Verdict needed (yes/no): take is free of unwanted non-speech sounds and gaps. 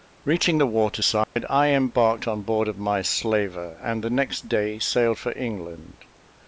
no